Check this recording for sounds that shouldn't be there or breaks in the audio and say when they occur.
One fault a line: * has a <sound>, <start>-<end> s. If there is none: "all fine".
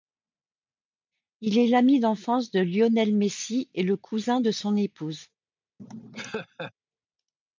* has a laugh, 5.8-6.7 s